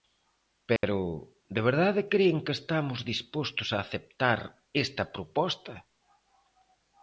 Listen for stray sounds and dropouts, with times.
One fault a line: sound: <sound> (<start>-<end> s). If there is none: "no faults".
sound: dropout (0.8-0.8 s)